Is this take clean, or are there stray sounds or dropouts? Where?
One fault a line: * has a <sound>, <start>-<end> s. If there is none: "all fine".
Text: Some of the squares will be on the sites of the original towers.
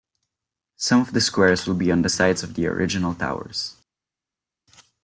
all fine